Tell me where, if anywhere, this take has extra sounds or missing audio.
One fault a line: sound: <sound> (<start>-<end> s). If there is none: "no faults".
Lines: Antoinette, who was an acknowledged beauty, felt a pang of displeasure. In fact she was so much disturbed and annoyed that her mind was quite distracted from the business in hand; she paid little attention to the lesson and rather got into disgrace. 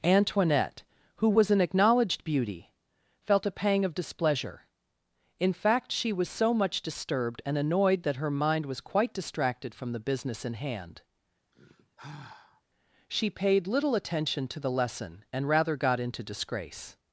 sound: sigh (11.5-12.6 s)